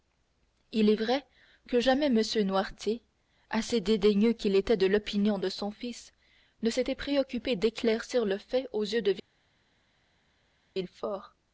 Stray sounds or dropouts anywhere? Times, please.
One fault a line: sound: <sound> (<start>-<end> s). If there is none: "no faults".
no faults